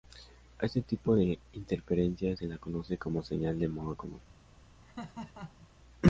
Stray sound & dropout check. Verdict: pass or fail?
fail